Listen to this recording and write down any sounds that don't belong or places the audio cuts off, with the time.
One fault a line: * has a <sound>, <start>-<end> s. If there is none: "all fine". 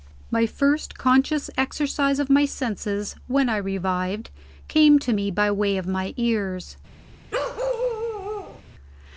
* has a bark, 7.3-8.6 s